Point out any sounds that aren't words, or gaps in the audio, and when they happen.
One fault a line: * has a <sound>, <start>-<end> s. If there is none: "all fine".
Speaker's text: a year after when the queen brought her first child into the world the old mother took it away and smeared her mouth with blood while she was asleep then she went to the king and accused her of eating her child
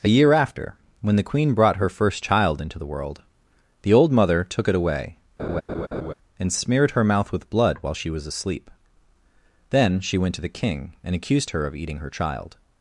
* has a laugh, 5.4-6.1 s